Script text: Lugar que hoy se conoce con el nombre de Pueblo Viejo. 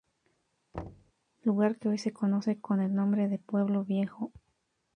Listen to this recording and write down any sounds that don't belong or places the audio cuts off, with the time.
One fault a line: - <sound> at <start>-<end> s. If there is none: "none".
- thud at 0.7-1.1 s